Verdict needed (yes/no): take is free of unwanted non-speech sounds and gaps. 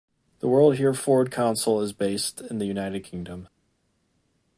yes